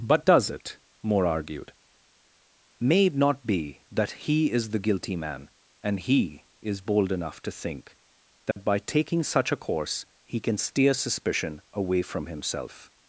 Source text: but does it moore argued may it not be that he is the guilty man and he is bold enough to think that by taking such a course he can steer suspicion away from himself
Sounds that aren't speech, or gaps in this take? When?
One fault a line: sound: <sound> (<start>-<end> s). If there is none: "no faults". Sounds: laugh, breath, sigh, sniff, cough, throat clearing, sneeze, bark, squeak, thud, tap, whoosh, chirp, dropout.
sound: dropout (8.5-8.6 s)